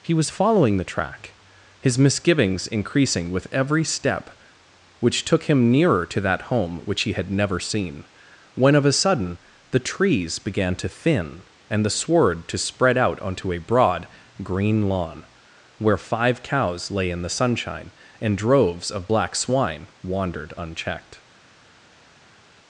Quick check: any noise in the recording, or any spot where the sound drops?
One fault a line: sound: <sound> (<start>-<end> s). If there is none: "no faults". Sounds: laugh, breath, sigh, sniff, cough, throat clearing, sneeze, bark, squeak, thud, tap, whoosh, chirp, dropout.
no faults